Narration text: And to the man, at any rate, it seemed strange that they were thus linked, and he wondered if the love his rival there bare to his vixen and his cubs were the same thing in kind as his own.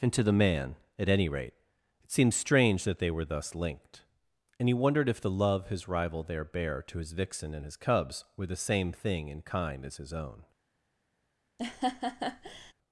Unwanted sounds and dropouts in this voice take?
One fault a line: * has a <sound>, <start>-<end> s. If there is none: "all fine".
* has a laugh, 11.6-12.7 s